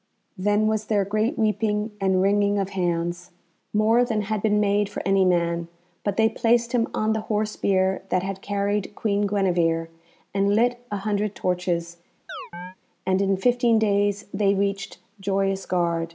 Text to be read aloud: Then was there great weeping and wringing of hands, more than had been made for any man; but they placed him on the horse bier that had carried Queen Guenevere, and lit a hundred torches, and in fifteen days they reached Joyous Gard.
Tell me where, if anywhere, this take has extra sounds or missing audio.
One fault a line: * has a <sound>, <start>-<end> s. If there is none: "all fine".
* has a chirp, 12.3-12.8 s